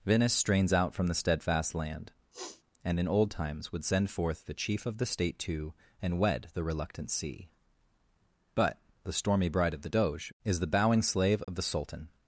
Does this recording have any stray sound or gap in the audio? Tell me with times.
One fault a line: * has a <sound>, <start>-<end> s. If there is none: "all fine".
* has a sniff, 2.3-2.6 s
* has a dropout, 11.4-11.5 s